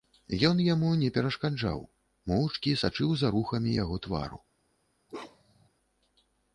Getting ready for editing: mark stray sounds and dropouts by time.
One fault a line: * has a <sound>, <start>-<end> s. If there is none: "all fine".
* has a bark, 5.1-5.7 s